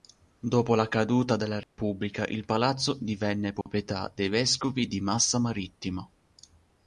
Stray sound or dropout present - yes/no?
yes